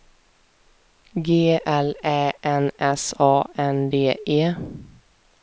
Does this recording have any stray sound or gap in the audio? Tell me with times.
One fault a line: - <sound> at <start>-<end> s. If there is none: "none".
none